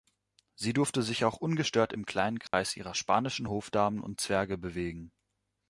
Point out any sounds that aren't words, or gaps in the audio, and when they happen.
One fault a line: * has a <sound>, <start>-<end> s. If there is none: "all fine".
* has a dropout, 2.5-2.5 s